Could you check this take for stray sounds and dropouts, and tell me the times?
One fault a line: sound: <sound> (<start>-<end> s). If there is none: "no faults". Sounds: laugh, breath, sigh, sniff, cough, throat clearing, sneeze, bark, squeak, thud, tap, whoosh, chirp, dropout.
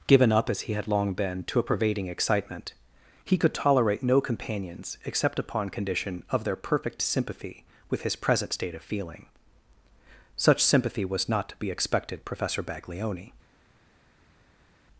no faults